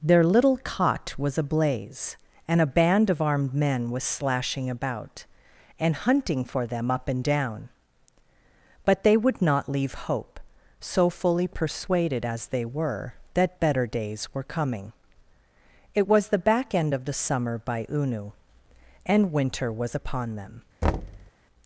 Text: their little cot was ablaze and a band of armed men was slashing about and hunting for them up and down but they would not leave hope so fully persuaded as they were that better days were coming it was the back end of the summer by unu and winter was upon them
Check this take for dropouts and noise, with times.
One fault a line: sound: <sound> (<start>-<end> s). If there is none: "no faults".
sound: thud (20.8-21.3 s)